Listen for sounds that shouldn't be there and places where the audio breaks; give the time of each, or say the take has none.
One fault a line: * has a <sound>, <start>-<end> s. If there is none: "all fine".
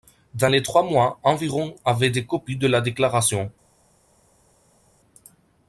all fine